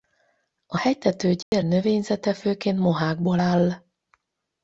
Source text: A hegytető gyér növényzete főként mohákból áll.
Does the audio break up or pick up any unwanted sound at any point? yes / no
yes